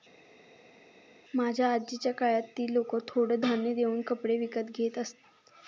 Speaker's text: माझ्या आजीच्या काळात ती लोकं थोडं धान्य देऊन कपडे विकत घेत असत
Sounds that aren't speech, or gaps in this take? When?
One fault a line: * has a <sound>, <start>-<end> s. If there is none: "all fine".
all fine